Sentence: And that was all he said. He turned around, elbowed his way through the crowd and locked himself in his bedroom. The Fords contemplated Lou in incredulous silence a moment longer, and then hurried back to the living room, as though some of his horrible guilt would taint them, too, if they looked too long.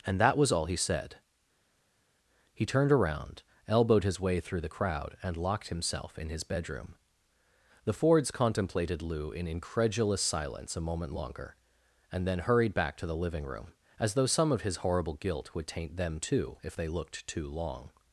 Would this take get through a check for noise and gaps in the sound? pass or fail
pass